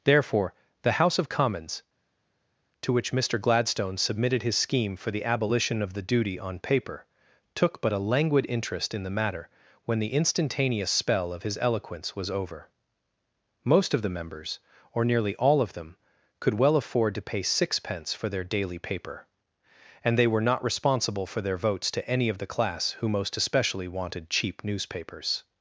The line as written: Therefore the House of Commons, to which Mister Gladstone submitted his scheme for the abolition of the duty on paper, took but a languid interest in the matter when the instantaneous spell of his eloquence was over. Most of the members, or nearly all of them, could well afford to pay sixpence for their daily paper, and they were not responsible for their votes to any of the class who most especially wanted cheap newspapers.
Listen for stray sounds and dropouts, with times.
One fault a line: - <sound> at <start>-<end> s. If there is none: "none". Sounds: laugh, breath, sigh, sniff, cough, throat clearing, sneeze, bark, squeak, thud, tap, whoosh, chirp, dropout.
none